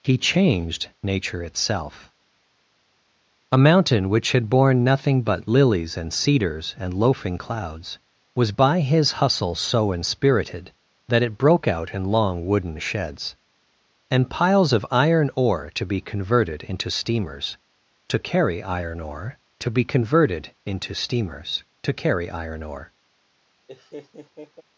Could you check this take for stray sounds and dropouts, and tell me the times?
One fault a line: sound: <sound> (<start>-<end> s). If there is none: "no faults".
sound: laugh (23.7-24.6 s)